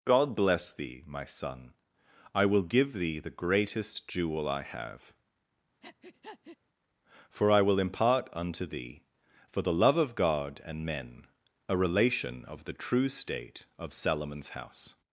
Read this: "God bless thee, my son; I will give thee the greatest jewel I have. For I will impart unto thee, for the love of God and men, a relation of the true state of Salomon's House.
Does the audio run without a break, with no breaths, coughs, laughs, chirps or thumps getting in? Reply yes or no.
no